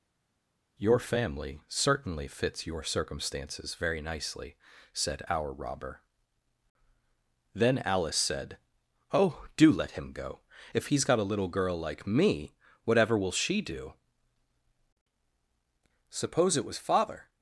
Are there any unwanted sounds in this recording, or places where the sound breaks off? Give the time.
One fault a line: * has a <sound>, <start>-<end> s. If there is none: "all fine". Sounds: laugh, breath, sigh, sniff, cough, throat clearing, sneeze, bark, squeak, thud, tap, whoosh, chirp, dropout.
all fine